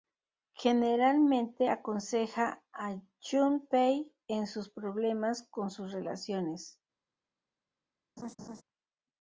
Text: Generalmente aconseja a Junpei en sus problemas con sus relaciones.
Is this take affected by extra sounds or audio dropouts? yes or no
yes